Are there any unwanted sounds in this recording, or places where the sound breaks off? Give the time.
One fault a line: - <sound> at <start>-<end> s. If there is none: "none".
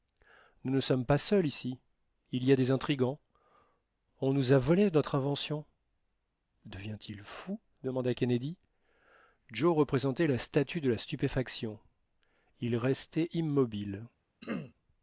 - throat clearing at 14.4-14.7 s